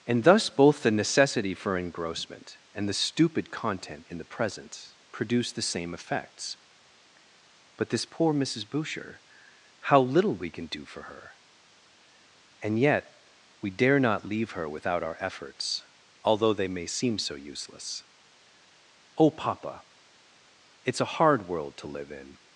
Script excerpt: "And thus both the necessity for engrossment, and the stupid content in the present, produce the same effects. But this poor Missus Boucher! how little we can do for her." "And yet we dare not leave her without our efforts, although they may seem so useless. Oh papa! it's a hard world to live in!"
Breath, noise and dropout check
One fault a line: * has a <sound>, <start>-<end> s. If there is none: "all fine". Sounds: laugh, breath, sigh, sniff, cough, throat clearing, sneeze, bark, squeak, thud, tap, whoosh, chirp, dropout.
all fine